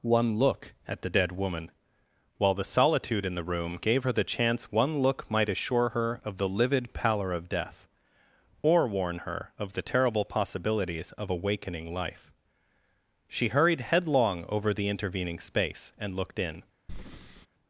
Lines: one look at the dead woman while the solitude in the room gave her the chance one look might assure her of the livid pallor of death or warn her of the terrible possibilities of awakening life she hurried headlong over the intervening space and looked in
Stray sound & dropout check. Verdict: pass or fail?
fail